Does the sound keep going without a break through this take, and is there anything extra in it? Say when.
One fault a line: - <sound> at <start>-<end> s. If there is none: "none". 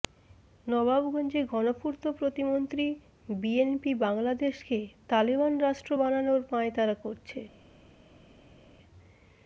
none